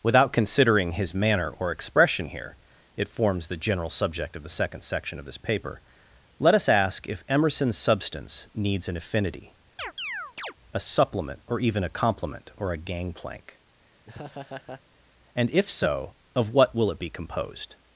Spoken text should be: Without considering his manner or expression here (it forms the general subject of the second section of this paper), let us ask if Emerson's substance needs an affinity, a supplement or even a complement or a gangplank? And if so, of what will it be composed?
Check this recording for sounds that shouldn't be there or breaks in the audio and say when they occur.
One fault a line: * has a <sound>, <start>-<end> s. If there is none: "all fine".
* has a chirp, 9.8-10.5 s
* has a laugh, 14.0-14.8 s